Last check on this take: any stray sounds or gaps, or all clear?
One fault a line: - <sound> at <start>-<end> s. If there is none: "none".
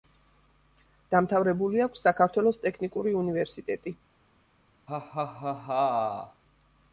- laugh at 4.9-6.4 s